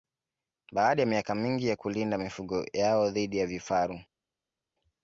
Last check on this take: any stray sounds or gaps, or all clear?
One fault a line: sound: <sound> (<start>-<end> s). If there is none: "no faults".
no faults